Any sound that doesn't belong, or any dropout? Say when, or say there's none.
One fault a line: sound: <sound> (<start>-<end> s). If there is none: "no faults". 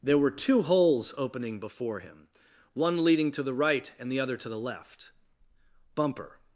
no faults